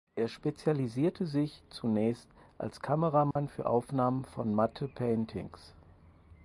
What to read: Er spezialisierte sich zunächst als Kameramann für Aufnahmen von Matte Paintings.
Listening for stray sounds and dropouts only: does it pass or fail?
fail